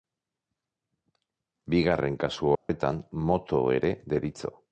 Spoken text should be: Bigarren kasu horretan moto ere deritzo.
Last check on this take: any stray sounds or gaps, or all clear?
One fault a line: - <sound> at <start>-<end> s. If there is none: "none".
- dropout at 2.6-2.7 s